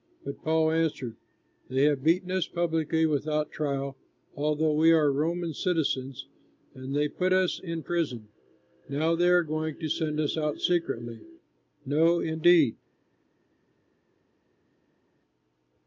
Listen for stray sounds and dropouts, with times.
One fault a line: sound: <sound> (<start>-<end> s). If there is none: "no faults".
no faults